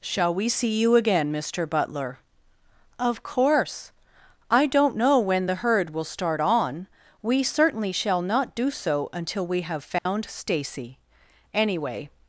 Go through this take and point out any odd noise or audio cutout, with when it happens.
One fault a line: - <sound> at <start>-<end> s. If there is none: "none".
- dropout at 10.0-10.1 s